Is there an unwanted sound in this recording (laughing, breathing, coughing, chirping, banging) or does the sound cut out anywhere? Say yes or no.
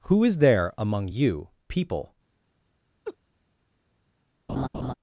yes